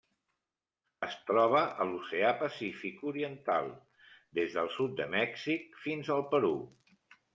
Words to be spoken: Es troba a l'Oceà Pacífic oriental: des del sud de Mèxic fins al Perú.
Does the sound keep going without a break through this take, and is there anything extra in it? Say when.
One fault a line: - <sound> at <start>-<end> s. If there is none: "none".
none